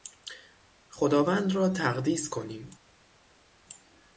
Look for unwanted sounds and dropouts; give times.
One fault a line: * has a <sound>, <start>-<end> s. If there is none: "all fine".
all fine